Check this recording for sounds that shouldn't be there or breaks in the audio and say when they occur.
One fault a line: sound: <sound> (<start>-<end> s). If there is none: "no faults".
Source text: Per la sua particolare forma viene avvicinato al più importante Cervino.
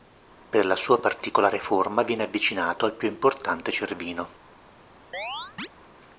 sound: chirp (5.1-5.7 s)